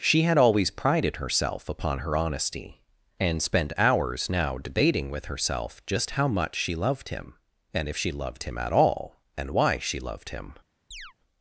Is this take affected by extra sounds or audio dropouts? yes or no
yes